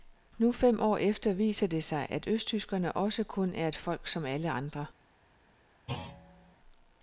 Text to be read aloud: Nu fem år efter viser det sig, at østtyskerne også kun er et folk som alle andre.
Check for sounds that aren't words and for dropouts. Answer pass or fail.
fail